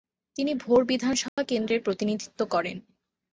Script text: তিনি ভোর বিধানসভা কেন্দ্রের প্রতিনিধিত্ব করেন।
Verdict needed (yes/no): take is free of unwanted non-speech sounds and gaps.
no